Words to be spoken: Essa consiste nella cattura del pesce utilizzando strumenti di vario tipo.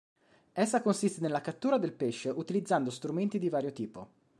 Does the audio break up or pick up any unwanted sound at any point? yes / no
no